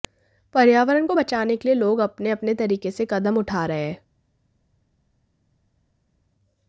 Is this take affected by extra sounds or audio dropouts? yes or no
no